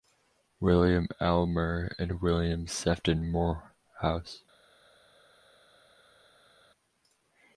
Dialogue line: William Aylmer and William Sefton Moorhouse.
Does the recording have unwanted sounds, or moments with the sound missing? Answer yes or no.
no